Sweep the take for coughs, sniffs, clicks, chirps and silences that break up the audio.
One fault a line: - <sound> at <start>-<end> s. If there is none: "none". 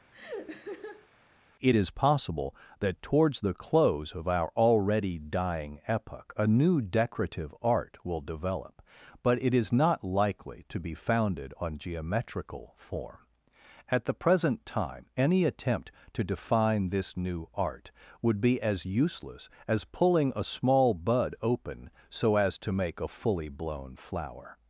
- laugh at 0.1-1.1 s